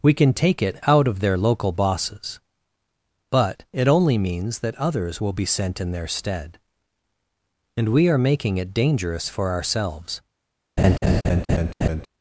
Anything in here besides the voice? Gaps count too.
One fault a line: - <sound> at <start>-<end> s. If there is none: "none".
- laugh at 10.8-12.1 s